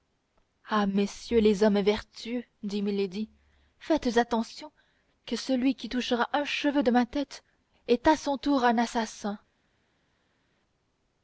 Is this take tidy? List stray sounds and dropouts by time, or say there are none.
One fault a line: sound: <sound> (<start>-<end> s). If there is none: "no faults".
no faults